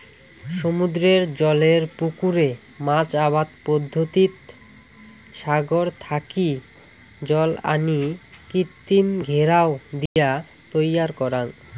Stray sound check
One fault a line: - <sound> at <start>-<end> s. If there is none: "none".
- dropout at 10.1-10.2 s